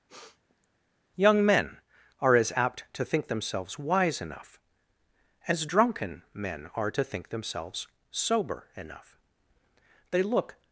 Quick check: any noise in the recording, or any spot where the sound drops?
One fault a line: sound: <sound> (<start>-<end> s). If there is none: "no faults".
sound: sniff (0.1-0.7 s)